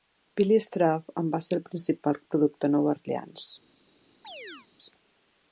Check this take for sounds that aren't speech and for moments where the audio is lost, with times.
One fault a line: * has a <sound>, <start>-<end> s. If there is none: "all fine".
* has a chirp, 4.2-4.7 s